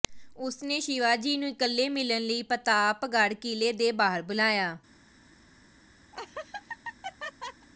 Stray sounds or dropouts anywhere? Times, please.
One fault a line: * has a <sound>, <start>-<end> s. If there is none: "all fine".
* has a laugh, 6.1-7.7 s